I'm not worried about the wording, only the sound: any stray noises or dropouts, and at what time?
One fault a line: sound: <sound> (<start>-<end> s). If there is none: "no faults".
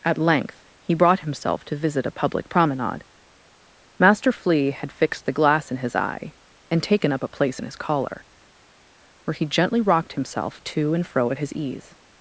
no faults